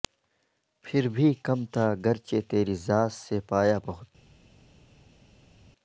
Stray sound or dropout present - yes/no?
no